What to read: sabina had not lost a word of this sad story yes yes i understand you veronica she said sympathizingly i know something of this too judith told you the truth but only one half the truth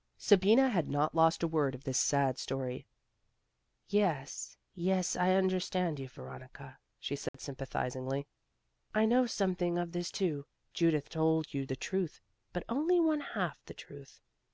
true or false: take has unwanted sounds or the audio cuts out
true